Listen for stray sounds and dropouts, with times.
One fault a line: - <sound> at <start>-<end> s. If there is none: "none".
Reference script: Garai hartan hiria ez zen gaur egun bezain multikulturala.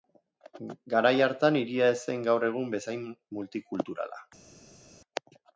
none